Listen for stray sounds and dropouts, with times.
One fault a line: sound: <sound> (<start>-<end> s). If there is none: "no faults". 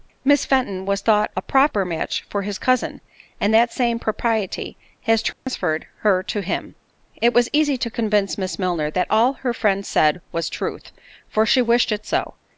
sound: dropout (5.3-5.5 s)